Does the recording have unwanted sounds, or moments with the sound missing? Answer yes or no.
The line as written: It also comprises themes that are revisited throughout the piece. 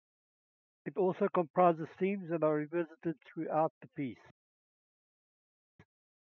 no